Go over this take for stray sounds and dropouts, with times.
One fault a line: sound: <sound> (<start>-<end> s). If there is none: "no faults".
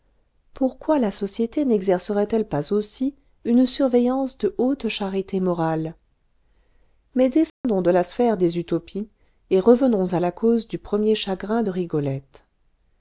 sound: dropout (7.5-7.6 s)